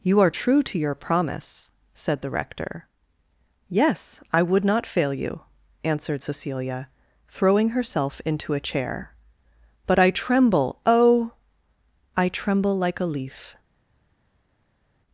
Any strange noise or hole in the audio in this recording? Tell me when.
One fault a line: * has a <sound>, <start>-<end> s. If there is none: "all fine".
all fine